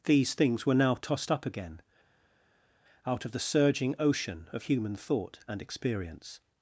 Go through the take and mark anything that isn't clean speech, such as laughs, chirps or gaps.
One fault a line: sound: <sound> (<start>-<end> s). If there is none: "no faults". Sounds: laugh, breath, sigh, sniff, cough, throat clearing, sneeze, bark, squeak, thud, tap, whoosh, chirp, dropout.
no faults